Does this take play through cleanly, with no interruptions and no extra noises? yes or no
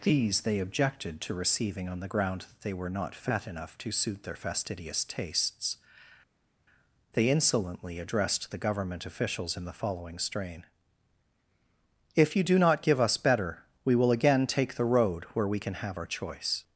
yes